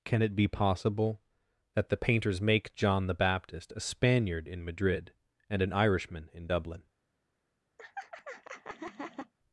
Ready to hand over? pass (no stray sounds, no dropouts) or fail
fail